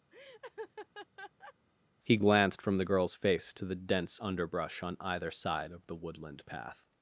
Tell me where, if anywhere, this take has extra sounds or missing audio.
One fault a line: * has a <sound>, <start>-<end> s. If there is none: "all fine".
* has a laugh, 0.1-1.5 s